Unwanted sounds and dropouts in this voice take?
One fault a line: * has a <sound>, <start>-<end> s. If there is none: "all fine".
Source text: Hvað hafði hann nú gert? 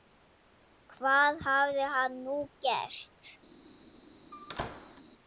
* has a squeak, 4.3-5.0 s